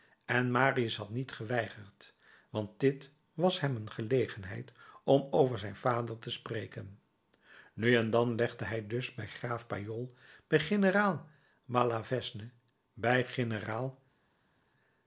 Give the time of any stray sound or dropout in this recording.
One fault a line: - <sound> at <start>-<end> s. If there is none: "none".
none